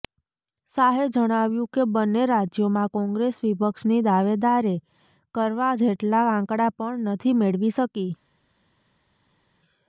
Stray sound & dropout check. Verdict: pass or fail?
pass